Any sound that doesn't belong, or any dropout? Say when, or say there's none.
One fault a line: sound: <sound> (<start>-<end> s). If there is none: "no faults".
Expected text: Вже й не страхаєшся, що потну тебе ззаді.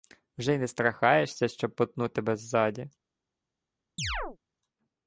sound: chirp (4.0-4.4 s)